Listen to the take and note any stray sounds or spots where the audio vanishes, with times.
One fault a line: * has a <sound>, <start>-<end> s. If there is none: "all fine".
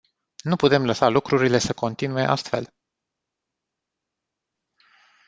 all fine